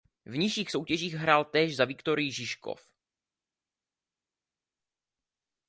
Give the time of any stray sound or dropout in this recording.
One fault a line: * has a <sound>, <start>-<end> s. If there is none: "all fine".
all fine